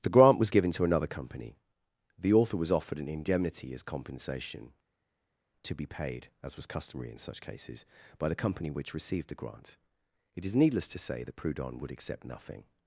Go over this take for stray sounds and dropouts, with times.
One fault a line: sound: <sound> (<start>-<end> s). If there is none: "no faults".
no faults